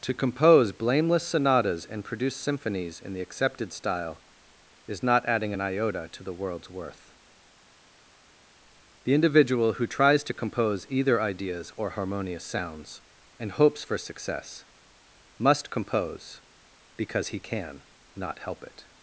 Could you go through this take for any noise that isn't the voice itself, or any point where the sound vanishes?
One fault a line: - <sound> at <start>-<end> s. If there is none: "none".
none